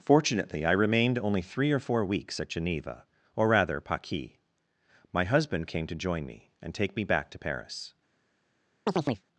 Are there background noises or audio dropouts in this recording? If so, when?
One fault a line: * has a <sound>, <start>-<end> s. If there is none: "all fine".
* has a chirp, 8.9-9.2 s